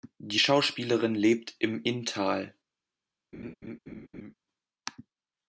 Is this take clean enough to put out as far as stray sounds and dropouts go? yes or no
no